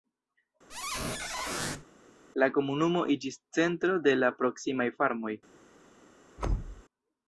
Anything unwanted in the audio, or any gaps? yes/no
yes